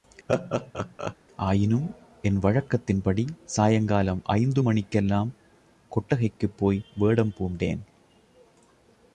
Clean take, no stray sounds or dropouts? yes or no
no